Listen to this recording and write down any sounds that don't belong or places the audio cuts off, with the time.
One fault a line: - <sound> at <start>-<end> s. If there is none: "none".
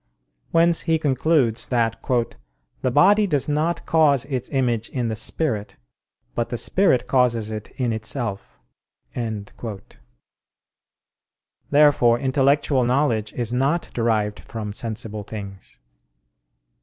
none